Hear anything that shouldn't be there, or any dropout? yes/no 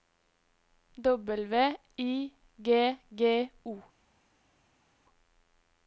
no